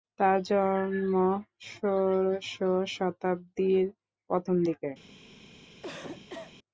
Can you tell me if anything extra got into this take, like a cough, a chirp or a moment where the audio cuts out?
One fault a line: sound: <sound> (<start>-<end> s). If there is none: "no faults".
sound: cough (5.8-6.5 s)